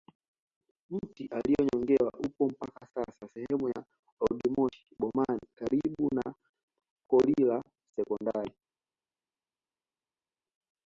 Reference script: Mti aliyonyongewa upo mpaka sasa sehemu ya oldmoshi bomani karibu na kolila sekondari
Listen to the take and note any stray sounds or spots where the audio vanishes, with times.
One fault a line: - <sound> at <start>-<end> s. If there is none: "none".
none